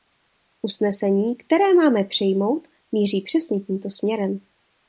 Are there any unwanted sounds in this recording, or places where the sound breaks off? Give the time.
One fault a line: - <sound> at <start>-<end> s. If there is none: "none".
none